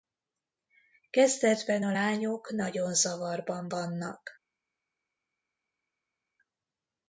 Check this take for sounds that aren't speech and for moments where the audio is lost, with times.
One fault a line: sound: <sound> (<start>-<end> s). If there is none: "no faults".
no faults